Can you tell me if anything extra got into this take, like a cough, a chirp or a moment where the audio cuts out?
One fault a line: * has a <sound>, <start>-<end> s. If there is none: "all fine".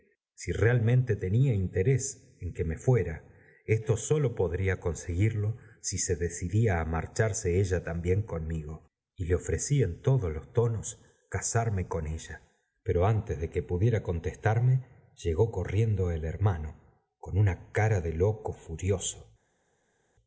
all fine